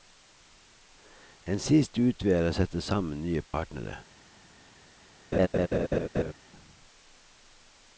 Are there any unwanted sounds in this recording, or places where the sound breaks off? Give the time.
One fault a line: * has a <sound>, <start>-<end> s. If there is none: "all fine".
* has a dropout, 3.5-3.5 s
* has a laugh, 5.3-6.3 s